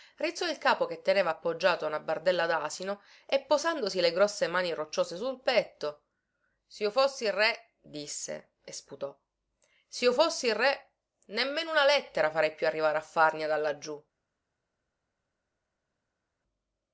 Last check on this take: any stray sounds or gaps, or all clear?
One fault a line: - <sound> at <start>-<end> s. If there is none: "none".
none